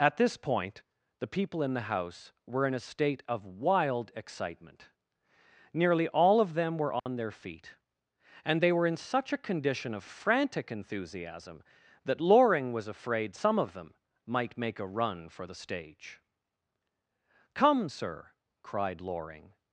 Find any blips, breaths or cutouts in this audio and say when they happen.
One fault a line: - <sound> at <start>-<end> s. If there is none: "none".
- dropout at 7.0-7.1 s